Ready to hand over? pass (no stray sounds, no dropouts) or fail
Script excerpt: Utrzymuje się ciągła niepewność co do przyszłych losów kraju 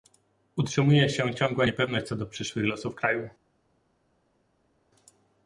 pass